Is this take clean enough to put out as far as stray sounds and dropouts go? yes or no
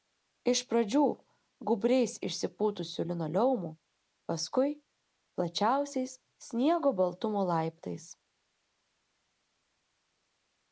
yes